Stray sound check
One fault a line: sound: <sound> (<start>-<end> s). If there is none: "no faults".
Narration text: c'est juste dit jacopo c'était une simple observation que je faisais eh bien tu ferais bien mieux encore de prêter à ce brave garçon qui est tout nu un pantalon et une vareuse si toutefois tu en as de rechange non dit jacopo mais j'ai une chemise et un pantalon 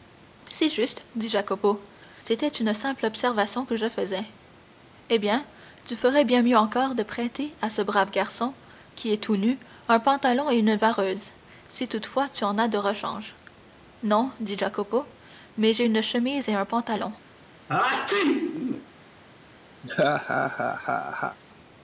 sound: sneeze (17.7-18.9 s)
sound: laugh (19.8-21.4 s)